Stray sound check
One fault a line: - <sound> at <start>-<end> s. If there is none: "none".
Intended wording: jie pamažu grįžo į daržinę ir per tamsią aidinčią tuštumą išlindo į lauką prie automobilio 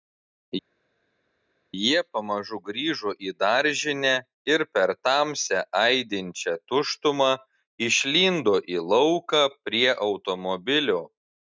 none